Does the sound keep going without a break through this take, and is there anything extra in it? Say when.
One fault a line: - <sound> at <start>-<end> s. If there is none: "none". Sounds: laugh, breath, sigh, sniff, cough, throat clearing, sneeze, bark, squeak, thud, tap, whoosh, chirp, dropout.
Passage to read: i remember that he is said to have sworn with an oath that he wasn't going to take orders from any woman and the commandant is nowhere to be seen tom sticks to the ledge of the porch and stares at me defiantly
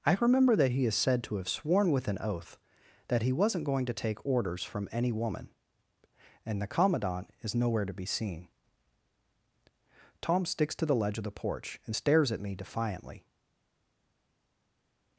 none